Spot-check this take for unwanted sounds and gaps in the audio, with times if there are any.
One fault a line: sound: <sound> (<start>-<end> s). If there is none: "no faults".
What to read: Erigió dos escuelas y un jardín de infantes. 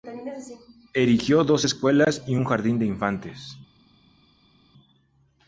no faults